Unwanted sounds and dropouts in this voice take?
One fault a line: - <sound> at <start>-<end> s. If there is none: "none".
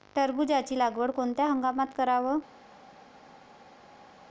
none